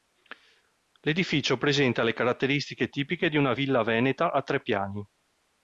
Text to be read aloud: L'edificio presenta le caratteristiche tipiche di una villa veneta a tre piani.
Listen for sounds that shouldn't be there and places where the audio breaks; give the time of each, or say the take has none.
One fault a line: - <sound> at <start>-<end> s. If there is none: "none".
none